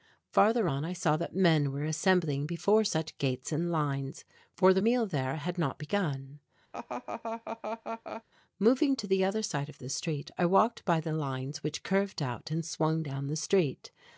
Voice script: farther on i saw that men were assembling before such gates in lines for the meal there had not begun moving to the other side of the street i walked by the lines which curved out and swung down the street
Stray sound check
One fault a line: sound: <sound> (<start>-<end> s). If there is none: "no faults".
sound: laugh (6.7-8.2 s)